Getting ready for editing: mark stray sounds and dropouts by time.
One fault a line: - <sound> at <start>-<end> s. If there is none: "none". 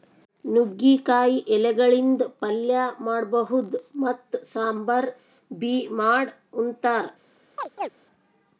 - chirp at 7.6-7.9 s